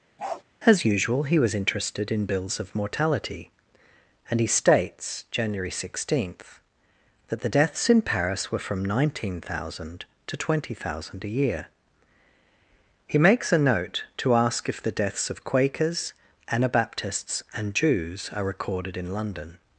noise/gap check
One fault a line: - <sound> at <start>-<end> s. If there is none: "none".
- bark at 0.2-0.4 s